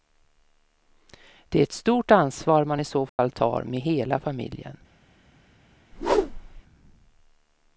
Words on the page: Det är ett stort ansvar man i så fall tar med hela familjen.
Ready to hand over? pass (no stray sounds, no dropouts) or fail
fail